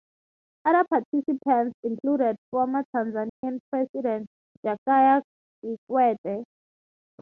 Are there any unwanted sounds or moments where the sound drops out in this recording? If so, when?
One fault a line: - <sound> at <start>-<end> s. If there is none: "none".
- dropout at 3.3-3.4 s